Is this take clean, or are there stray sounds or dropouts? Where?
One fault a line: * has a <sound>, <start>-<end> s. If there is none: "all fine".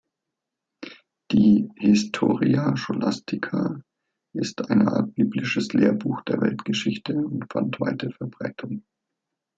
all fine